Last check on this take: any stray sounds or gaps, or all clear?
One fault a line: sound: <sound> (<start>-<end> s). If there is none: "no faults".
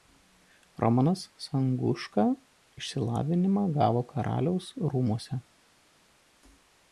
no faults